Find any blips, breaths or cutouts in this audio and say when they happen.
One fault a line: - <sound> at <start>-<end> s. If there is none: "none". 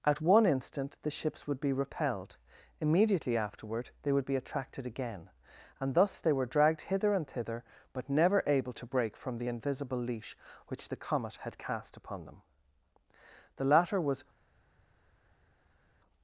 none